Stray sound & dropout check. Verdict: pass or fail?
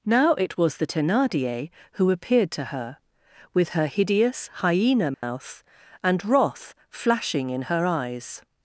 fail